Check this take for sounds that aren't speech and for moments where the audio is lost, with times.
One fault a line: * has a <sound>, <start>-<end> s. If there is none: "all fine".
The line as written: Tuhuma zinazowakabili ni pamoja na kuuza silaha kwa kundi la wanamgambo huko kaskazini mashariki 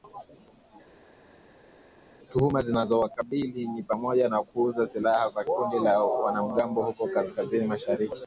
all fine